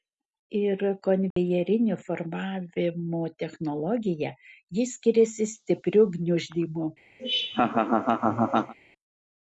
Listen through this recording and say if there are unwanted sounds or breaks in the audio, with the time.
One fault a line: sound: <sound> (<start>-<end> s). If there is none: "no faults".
sound: dropout (1.3-1.4 s)
sound: laugh (7.2-8.7 s)